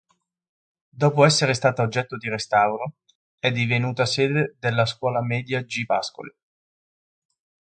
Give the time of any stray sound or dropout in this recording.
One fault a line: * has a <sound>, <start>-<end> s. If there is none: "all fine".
all fine